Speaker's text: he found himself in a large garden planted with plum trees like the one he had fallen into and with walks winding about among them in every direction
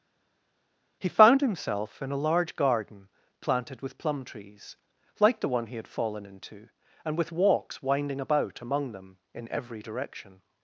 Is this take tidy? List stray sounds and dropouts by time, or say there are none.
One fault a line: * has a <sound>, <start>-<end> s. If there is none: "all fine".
all fine